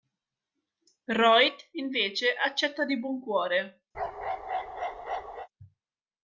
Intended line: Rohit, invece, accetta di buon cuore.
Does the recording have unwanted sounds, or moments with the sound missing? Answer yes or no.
yes